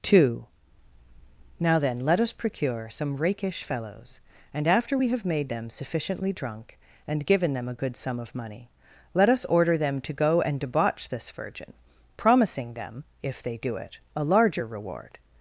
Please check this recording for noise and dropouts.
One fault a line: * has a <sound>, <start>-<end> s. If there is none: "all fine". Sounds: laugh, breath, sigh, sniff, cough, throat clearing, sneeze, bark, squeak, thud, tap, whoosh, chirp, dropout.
all fine